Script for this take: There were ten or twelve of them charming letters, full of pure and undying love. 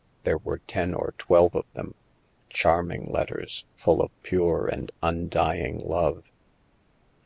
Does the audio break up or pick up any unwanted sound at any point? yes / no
no